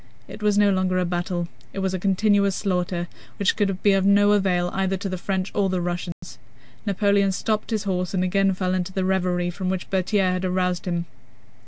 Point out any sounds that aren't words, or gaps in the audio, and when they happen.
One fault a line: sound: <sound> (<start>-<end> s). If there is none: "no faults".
sound: dropout (6.1-6.2 s)